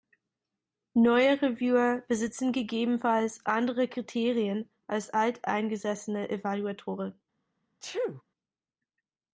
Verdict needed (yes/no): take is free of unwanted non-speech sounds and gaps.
no